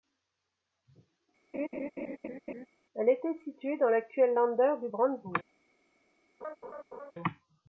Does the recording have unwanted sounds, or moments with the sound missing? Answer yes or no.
yes